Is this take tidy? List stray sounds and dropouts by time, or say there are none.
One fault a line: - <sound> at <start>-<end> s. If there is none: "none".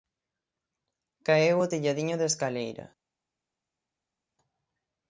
none